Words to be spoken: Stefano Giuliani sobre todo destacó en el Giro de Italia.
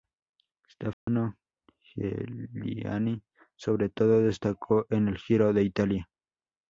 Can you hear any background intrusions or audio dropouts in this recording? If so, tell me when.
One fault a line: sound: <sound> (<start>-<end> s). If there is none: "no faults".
sound: dropout (0.9-1.1 s)